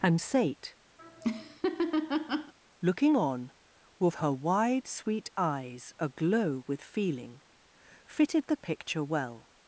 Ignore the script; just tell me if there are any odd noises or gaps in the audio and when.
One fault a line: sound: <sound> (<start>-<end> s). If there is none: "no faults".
sound: laugh (1.0-2.5 s)